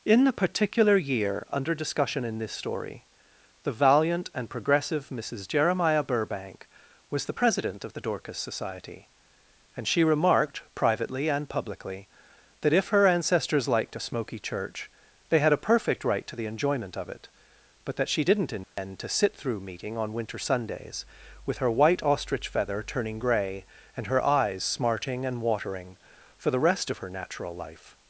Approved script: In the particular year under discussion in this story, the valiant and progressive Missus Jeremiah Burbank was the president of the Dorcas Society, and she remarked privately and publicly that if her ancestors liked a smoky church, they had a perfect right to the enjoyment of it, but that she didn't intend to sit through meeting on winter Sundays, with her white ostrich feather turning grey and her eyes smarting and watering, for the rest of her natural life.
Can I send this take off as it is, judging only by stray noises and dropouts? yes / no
no